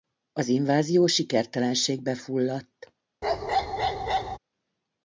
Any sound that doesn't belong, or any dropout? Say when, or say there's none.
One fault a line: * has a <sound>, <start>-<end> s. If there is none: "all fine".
* has a bark, 3.2-4.4 s